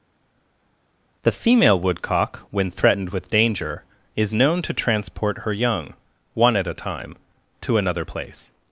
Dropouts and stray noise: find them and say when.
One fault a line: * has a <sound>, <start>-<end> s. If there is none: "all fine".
all fine